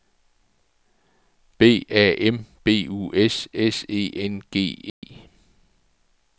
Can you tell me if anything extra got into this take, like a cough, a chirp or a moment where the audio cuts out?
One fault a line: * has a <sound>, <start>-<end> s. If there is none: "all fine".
* has a dropout, 4.9-5.0 s